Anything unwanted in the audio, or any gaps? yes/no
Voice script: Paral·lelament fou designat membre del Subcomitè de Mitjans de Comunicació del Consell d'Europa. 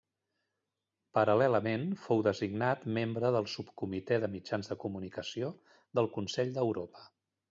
no